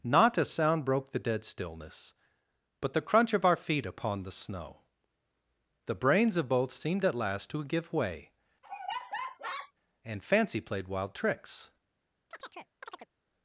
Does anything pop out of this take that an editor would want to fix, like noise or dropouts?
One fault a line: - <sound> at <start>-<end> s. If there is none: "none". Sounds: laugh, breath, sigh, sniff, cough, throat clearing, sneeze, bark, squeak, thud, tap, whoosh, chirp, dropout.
- laugh at 8.6-9.7 s
- chirp at 12.3-13.1 s